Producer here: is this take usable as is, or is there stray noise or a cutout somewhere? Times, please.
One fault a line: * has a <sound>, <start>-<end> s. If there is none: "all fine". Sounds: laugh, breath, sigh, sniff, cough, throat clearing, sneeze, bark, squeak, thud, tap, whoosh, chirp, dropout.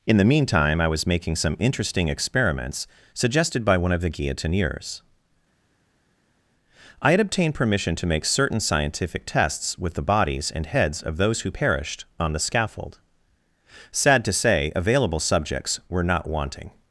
all fine